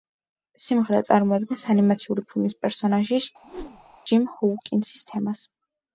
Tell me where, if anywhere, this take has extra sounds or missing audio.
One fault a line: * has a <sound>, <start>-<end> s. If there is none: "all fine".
* has a whoosh, 3.4-4.0 s